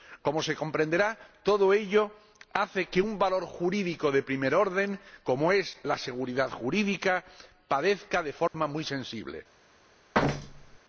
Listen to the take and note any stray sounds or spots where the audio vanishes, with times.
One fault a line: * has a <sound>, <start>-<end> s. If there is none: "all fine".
* has a dropout, 8.5-8.5 s
* has a thud, 10.1-10.8 s